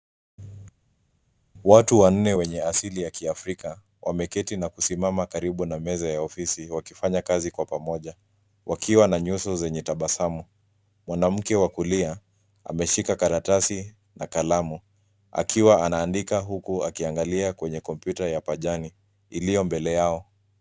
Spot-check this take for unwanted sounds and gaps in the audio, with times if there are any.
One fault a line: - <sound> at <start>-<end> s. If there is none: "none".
none